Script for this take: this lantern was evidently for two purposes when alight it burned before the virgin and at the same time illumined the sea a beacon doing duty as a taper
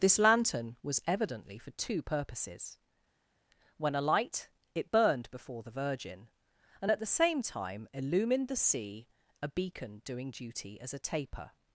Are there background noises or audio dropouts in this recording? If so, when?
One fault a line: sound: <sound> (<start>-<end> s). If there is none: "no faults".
no faults